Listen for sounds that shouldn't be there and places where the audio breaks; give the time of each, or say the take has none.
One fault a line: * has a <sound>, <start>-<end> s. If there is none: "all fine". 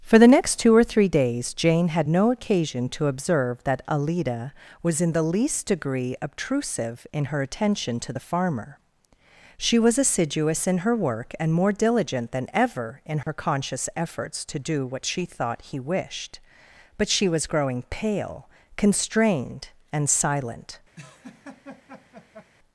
* has a dropout, 13.2-13.3 s
* has a laugh, 21.0-22.5 s